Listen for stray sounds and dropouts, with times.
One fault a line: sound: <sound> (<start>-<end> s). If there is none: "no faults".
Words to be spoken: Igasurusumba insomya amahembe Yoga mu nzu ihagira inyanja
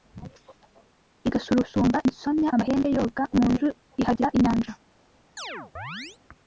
sound: chirp (5.4-6.2 s)